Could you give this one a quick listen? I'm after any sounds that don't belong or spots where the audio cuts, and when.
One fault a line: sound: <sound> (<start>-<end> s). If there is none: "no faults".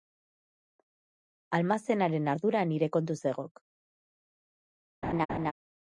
sound: laugh (5.0-5.5 s)